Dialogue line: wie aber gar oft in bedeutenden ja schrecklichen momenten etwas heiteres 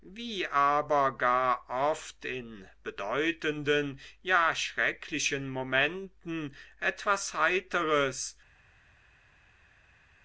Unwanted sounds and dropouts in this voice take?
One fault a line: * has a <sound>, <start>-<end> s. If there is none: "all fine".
all fine